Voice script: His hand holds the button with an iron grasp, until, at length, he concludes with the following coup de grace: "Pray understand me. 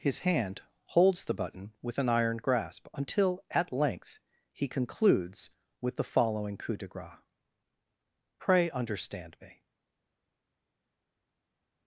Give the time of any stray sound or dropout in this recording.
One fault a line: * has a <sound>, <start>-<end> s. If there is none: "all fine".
all fine